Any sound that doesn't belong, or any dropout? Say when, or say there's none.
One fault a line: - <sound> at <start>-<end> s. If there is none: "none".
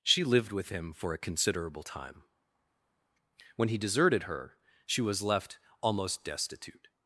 none